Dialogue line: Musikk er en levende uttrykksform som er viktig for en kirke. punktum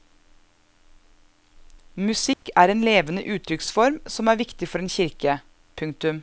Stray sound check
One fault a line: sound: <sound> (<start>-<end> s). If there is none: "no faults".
sound: dropout (2.3-2.4 s)